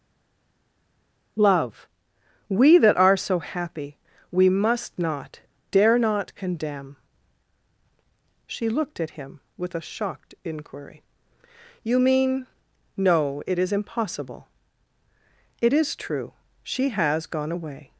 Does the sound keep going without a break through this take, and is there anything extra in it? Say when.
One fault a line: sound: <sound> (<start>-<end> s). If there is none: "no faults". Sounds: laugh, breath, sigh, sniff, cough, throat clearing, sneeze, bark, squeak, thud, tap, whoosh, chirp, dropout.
no faults